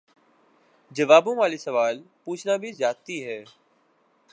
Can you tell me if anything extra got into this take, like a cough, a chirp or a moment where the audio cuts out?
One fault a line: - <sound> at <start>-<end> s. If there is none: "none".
none